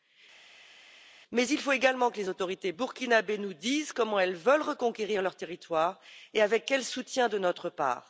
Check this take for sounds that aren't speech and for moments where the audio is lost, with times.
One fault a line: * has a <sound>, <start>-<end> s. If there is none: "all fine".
all fine